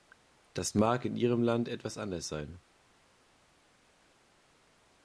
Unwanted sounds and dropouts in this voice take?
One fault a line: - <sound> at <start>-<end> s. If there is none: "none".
none